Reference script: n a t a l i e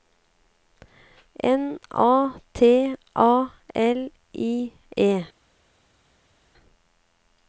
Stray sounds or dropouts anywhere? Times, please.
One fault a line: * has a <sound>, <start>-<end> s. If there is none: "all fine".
all fine